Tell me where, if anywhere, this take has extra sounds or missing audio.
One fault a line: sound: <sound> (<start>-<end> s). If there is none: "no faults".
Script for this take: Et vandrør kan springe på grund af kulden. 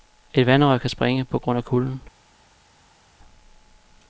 no faults